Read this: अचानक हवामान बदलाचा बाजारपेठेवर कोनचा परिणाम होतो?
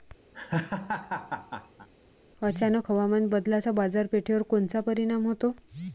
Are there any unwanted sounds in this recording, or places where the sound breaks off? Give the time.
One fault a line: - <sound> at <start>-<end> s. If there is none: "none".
- laugh at 0.3-1.9 s